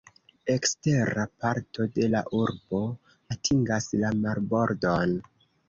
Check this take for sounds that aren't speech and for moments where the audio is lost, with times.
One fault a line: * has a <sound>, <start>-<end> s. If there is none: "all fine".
all fine